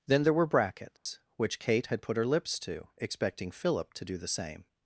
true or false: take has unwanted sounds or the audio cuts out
true